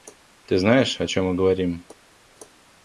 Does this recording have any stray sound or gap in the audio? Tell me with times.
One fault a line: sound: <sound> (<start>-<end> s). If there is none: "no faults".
no faults